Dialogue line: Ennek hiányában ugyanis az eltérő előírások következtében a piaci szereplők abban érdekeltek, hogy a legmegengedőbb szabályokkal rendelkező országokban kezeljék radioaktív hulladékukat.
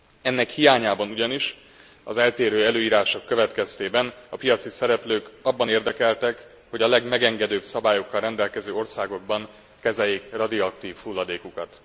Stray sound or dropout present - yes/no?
no